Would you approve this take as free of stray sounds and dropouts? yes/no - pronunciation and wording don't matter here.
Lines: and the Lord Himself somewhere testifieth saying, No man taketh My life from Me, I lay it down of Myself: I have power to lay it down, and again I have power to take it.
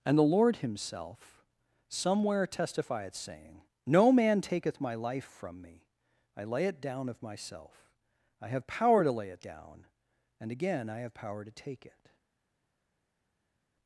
yes